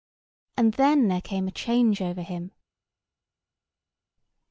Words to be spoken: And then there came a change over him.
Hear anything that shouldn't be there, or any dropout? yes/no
no